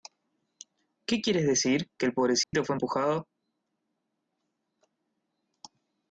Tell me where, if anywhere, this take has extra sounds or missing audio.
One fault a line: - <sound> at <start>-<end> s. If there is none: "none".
- dropout at 2.4-2.5 s